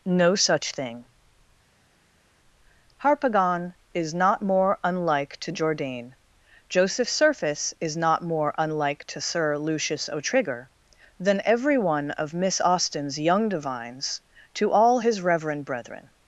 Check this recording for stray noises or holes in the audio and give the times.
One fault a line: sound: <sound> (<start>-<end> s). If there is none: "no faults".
no faults